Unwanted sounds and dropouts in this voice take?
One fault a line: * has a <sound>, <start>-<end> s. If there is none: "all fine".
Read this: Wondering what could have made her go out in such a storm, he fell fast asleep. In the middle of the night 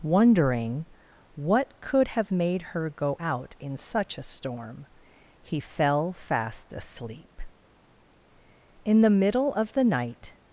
all fine